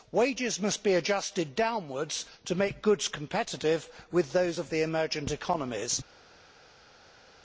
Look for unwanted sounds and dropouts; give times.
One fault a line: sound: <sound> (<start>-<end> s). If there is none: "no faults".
no faults